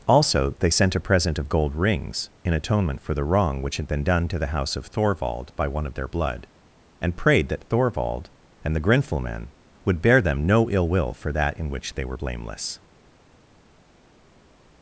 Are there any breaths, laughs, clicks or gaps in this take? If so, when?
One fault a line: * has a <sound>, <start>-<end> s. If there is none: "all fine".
all fine